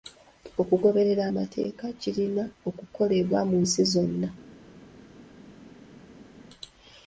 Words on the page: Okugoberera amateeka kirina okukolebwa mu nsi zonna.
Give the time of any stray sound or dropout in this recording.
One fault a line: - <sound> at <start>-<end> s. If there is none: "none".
none